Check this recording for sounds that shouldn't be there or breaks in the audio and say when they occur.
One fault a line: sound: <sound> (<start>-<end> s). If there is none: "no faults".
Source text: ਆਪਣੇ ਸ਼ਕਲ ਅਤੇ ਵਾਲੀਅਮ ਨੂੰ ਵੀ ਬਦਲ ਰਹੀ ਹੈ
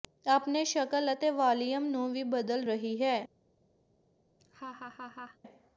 sound: laugh (4.4-5.4 s)